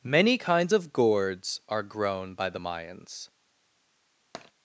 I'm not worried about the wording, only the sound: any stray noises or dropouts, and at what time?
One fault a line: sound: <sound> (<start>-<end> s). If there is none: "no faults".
sound: tap (4.3-4.5 s)